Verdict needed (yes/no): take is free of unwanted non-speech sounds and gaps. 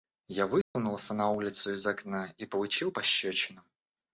no